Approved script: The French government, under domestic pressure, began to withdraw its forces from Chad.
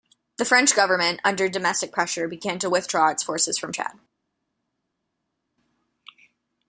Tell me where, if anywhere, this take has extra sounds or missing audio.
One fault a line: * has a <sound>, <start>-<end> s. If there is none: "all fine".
all fine